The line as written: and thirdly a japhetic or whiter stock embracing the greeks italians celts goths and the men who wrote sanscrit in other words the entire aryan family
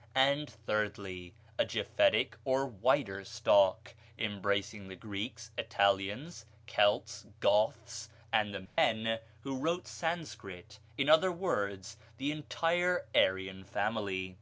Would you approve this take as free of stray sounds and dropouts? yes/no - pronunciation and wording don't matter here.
no